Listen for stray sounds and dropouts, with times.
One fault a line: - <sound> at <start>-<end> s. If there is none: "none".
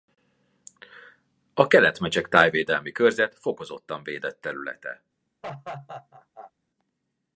- laugh at 5.4-6.5 s